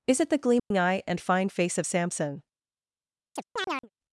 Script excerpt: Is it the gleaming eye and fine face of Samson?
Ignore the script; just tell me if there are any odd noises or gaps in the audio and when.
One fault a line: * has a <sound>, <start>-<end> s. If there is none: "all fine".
* has a dropout, 0.6-0.7 s
* has a chirp, 3.4-3.9 s